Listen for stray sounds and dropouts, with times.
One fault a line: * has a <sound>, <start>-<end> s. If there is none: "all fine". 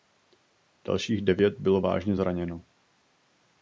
all fine